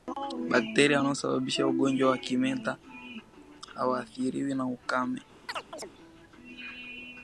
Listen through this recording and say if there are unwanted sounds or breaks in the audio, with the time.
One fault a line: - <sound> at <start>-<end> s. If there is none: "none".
- chirp at 5.5-5.9 s